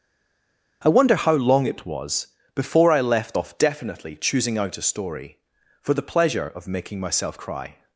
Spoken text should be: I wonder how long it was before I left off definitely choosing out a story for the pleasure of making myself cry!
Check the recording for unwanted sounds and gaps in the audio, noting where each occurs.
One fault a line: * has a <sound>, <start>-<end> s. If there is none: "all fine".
all fine